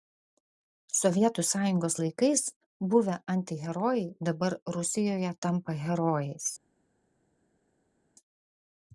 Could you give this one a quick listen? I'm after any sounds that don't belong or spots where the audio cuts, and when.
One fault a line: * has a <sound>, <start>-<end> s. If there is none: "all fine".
all fine